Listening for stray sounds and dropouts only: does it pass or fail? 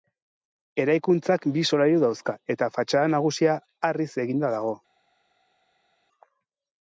pass